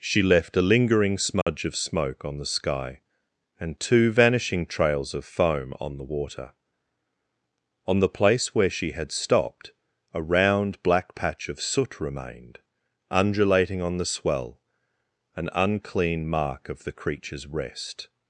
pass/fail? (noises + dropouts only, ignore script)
fail